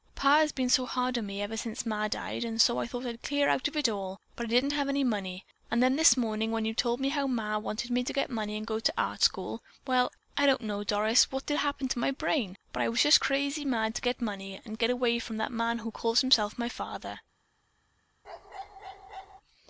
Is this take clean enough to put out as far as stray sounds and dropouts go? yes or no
no